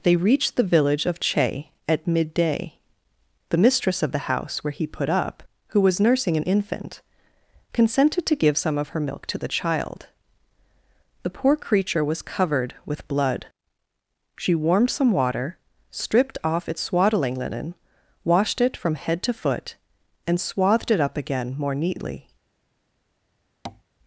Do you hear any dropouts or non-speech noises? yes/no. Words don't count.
yes